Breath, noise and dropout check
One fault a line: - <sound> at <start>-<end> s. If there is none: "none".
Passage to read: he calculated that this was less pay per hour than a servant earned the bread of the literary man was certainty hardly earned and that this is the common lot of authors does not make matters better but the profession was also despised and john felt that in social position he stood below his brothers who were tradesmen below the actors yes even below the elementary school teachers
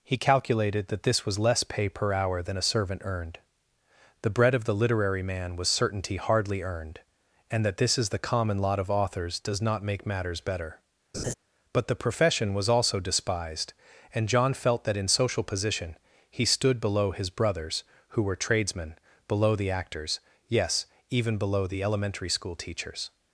- laugh at 11.1-11.3 s